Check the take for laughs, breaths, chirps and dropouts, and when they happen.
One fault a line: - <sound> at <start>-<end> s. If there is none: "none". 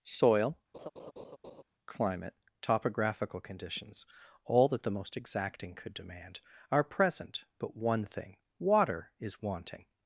- laugh at 0.7-1.6 s